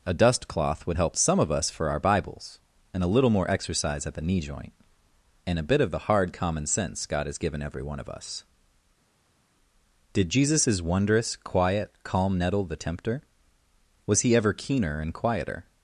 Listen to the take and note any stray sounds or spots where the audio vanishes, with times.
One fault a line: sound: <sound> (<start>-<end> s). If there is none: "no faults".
no faults